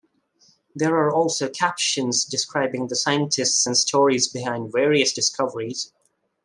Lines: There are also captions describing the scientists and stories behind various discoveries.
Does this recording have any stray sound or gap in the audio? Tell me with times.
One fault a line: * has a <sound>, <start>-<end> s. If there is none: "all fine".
all fine